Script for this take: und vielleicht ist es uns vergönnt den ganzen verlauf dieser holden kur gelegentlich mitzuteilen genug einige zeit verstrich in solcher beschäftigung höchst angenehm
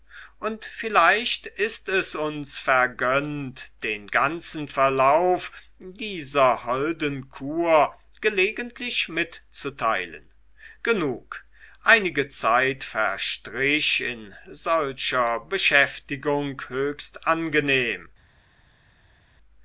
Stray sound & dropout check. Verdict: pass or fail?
pass